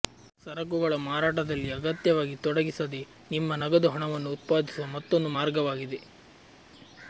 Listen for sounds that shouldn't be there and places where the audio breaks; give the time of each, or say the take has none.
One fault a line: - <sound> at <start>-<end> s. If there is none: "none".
none